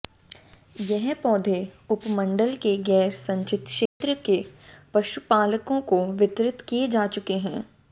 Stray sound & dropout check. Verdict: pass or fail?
fail